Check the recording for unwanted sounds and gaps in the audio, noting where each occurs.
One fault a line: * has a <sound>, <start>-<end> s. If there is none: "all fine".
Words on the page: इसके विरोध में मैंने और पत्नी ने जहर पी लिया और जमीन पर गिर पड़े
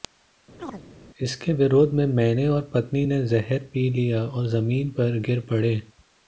* has a chirp, 0.6-0.8 s